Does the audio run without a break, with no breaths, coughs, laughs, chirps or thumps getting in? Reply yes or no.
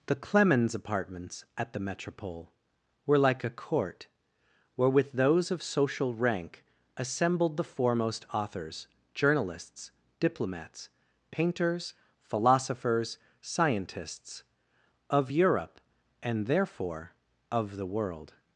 yes